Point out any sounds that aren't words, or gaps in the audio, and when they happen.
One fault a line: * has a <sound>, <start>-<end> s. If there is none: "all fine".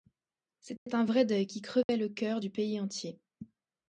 * has a dropout, 0.8-0.9 s
* has a dropout, 1.8-1.9 s